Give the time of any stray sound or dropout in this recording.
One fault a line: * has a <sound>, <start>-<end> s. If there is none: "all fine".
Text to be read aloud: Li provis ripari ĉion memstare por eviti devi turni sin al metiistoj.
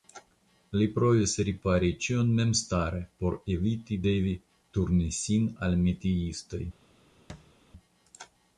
* has a thud, 7.3-7.5 s